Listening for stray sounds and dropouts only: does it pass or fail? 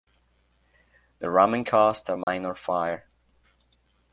fail